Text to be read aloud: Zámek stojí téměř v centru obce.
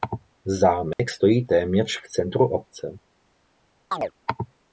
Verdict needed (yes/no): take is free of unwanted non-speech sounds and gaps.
no